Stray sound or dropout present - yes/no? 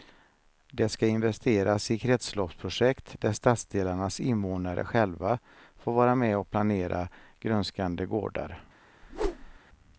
yes